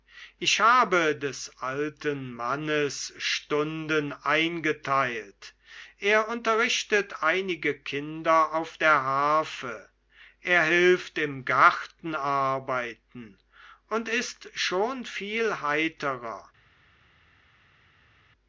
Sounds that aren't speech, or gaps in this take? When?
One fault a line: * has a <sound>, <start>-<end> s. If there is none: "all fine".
all fine